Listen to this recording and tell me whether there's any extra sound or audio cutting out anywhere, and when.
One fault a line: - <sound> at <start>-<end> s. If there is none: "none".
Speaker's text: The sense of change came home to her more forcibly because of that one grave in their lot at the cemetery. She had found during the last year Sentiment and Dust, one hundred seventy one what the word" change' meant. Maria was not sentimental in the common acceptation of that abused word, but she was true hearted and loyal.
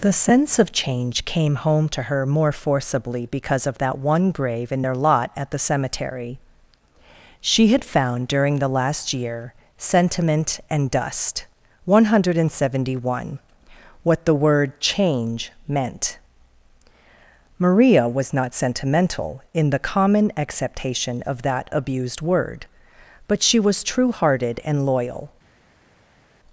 none